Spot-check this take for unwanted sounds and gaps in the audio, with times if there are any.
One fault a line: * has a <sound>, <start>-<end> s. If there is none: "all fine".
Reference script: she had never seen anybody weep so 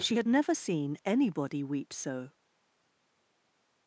all fine